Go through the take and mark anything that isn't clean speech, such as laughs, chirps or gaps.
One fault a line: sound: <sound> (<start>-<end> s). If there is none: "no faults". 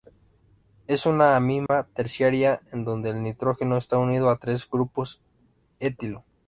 sound: dropout (1.7-1.7 s)